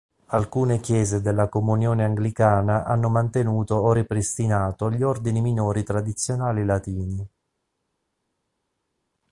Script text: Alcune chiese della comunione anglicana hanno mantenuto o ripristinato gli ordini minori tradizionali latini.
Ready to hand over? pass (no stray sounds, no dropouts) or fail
pass